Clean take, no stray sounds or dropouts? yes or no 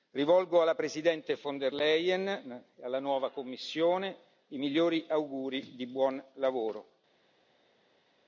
yes